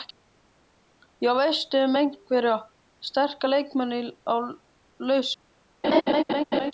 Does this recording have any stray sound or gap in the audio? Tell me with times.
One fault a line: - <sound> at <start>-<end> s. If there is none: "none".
- laugh at 5.8-6.7 s